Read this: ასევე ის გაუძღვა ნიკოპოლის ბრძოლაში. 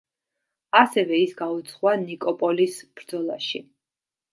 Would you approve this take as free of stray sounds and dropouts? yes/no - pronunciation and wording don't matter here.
yes